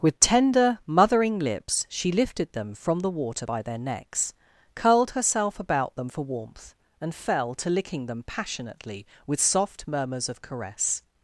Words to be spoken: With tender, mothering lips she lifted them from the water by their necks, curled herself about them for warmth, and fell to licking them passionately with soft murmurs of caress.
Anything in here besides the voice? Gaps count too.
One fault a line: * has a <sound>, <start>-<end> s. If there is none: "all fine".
all fine